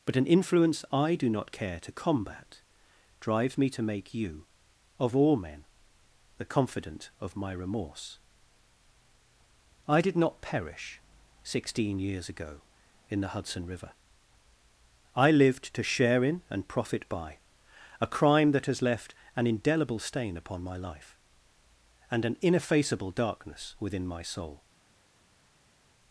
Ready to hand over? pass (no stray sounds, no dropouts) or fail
pass